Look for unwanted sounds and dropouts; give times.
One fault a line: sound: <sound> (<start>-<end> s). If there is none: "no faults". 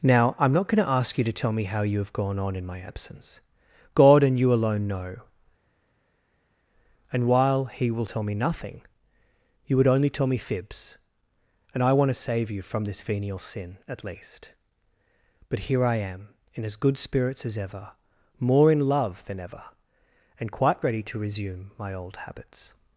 no faults